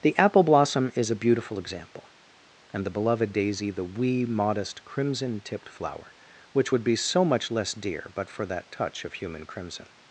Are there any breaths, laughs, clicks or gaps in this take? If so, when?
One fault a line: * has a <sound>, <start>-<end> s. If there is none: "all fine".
all fine